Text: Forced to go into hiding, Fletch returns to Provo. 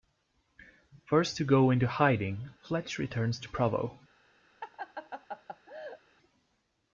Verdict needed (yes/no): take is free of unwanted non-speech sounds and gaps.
no